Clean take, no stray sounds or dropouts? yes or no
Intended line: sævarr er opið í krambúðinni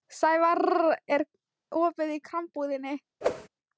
no